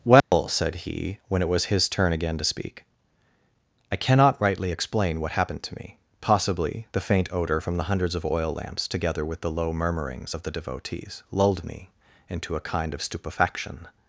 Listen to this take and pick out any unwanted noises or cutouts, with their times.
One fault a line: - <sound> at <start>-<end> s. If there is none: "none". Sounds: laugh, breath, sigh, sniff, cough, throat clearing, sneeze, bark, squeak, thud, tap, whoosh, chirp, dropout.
- dropout at 0.2-0.3 s